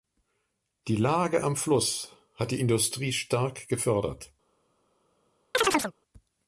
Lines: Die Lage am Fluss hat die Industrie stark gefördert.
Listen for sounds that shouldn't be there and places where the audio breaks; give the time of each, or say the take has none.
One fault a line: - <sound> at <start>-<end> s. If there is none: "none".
- chirp at 5.5-5.9 s